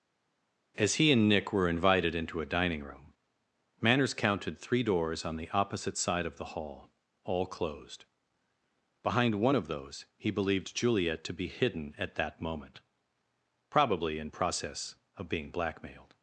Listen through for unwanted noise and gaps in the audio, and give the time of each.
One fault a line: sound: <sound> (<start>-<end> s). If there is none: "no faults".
no faults